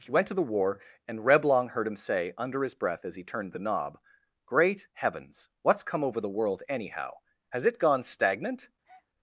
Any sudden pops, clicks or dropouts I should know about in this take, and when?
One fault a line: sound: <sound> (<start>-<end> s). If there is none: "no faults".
sound: breath (8.8-9.1 s)